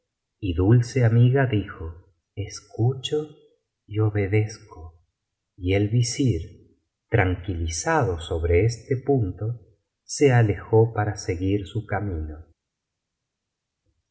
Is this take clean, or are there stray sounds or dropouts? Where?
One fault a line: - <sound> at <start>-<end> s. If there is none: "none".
none